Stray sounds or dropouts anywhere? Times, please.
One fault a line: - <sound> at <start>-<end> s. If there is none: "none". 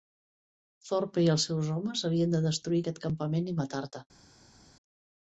none